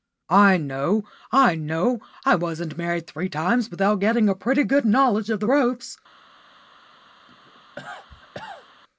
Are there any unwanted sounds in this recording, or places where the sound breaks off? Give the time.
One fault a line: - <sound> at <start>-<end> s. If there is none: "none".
- cough at 7.3-8.7 s